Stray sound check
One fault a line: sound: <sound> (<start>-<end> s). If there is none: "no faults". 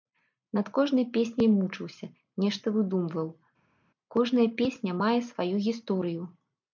no faults